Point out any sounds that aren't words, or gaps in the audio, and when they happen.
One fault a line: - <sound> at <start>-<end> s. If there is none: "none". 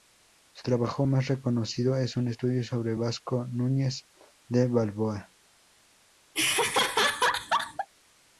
- laugh at 6.3-7.9 s